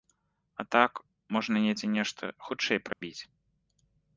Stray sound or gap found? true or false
true